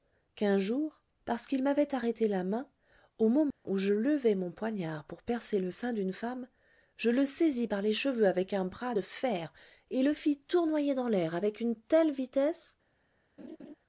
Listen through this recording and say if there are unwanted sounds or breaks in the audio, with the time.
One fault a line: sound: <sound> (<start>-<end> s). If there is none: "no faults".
sound: dropout (3.5-3.7 s)
sound: laugh (13.4-13.7 s)